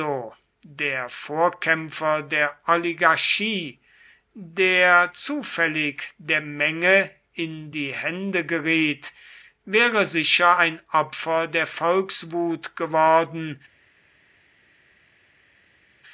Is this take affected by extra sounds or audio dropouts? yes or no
no